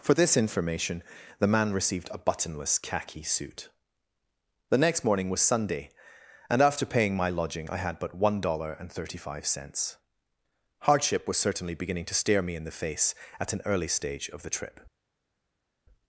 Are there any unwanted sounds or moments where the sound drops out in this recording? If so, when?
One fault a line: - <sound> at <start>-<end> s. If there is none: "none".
none